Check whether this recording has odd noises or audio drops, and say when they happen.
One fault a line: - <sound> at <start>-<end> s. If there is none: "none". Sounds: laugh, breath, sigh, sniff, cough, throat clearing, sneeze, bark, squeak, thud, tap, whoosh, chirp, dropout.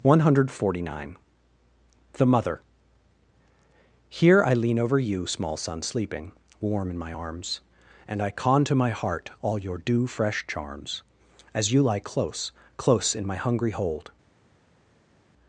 none